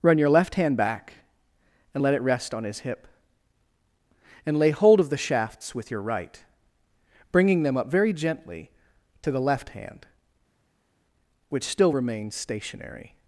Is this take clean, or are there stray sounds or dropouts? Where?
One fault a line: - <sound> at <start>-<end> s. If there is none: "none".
none